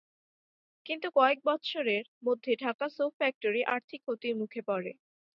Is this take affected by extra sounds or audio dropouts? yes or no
no